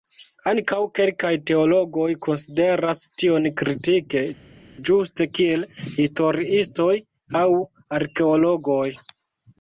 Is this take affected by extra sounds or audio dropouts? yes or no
no